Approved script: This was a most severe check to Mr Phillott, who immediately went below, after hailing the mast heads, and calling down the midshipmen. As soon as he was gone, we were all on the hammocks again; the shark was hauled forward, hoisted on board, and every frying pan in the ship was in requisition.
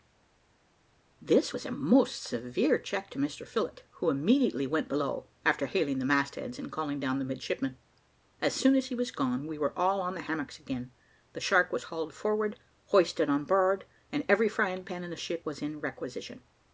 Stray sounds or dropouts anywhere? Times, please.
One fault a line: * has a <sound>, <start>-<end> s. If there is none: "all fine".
all fine